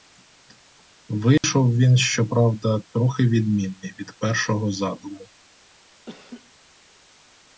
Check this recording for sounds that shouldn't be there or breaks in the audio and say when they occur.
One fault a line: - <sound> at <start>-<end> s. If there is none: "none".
- dropout at 1.4-1.4 s
- laugh at 6.1-6.5 s